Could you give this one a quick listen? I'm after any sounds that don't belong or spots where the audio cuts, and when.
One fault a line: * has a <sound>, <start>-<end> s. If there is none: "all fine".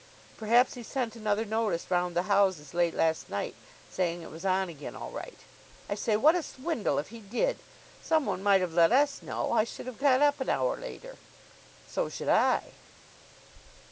all fine